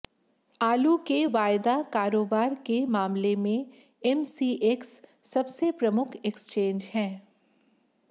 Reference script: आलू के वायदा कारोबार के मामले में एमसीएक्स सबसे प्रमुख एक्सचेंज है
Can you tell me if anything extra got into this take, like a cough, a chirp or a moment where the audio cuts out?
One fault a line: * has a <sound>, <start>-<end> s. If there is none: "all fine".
all fine